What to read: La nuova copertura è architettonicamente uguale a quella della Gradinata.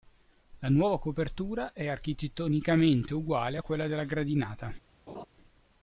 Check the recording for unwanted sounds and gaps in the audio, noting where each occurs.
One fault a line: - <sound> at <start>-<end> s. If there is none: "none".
- laugh at 5.1-5.3 s